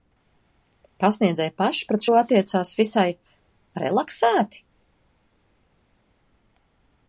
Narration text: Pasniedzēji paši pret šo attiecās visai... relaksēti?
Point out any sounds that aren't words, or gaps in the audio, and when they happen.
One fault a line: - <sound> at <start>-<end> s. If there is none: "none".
none